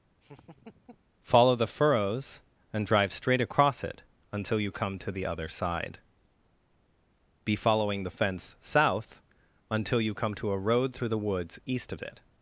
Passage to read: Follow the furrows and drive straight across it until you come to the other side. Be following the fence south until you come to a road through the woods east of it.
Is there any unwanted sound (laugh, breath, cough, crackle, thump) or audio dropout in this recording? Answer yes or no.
yes